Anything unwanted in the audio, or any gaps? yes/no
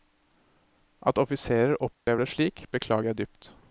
yes